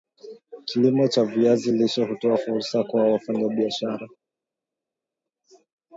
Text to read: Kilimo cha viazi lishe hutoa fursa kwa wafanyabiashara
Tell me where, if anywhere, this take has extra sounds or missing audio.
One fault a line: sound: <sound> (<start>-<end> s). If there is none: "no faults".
no faults